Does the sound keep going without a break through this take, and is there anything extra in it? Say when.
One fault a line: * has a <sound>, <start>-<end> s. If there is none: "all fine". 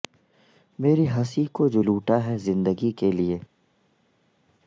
all fine